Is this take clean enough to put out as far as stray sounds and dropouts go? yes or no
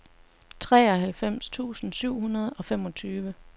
yes